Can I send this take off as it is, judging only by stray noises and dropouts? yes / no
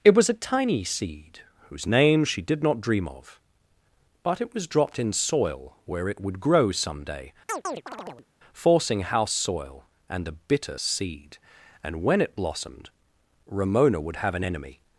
no